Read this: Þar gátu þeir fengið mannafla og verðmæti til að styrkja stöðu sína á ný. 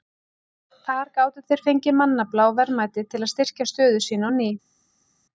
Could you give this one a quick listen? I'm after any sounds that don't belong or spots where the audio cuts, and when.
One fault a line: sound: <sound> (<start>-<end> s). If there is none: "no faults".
no faults